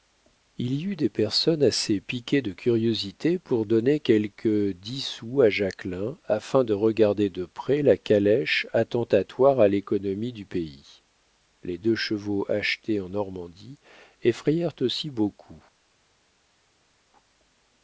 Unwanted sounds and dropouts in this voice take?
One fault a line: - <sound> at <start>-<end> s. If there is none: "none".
none